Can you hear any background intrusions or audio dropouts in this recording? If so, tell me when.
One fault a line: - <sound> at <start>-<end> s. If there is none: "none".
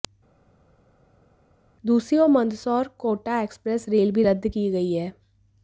none